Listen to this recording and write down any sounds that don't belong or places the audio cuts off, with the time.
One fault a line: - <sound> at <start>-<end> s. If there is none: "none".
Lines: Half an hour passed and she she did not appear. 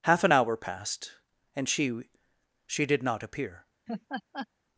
- laugh at 3.9-4.5 s